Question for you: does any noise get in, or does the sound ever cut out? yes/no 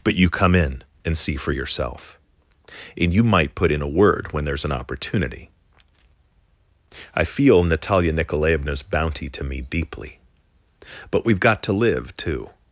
no